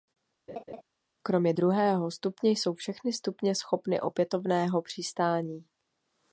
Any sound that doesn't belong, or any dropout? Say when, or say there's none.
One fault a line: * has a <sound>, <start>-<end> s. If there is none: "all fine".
* has a laugh, 0.5-0.8 s